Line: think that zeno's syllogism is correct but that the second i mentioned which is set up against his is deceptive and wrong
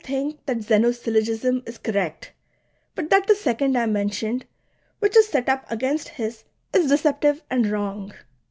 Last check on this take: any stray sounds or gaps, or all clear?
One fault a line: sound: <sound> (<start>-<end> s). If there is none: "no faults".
no faults